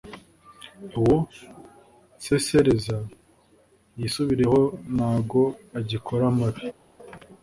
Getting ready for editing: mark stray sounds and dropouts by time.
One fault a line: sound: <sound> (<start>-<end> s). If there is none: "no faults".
no faults